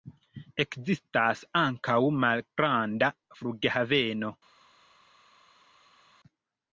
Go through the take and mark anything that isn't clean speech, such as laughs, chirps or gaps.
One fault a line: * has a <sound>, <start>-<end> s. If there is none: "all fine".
all fine